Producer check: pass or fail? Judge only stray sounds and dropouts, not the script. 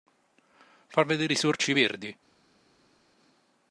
pass